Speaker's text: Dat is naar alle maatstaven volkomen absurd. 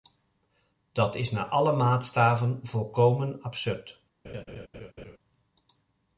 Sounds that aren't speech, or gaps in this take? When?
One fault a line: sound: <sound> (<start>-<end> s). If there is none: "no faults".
sound: laugh (4.2-5.2 s)